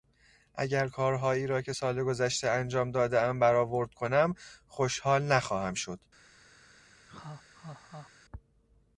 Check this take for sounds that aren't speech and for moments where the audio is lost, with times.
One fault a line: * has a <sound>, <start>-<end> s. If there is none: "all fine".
* has a laugh, 7.1-8.1 s